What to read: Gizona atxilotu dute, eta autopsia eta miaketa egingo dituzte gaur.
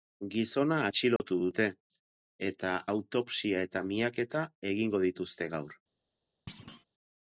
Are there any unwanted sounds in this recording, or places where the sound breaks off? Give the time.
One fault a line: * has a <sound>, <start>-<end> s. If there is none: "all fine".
* has a dropout, 1.2-1.2 s
* has a thud, 6.5-6.8 s